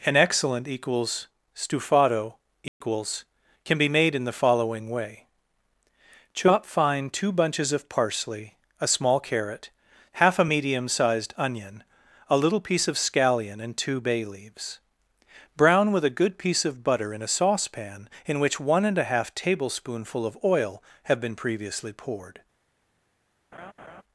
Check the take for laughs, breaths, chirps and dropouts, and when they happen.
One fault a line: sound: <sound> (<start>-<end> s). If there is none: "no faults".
sound: dropout (2.7-2.8 s)
sound: laugh (23.5-24.0 s)